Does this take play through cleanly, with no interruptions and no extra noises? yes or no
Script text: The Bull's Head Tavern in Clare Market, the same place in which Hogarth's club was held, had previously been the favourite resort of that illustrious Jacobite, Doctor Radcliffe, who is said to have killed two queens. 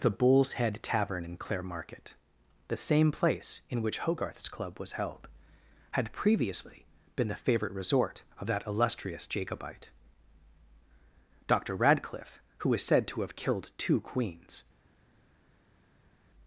yes